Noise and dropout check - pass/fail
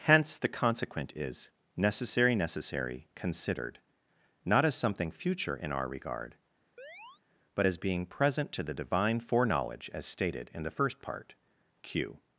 fail